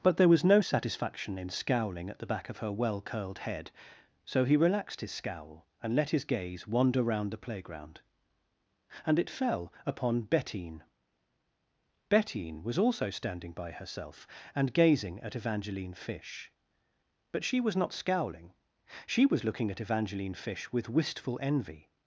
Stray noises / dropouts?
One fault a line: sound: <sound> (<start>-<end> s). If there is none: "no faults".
no faults